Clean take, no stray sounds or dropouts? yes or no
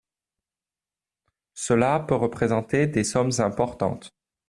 yes